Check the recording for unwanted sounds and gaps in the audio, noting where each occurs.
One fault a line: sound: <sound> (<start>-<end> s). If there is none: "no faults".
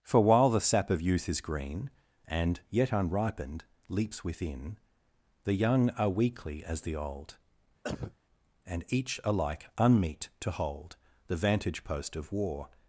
sound: cough (7.8-8.2 s)